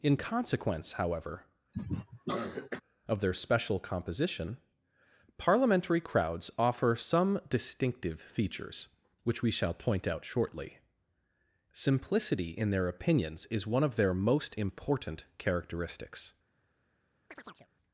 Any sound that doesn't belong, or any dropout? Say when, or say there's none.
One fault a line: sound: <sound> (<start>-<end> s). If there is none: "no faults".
sound: cough (1.7-2.8 s)
sound: chirp (17.3-17.7 s)